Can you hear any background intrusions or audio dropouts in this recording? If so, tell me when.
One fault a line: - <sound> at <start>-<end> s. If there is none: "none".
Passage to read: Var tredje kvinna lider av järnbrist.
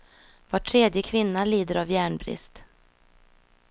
none